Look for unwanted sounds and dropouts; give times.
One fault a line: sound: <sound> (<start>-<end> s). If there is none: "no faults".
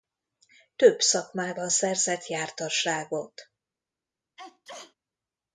sound: sneeze (4.4-4.9 s)